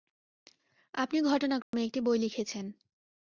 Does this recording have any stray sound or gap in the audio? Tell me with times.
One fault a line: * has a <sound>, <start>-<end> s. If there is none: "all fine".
* has a dropout, 1.6-1.7 s